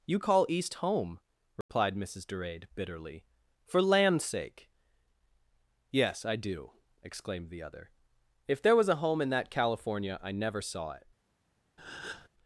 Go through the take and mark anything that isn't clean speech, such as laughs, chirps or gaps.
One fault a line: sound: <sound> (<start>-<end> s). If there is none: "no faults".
sound: dropout (1.6-1.7 s)
sound: breath (11.8-12.3 s)